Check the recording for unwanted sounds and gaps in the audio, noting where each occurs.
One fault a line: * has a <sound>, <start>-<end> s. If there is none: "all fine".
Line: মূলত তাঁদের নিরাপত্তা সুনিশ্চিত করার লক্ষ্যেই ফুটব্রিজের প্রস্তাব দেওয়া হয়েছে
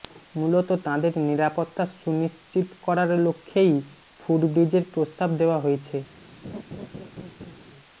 * has a laugh, 6.4-7.6 s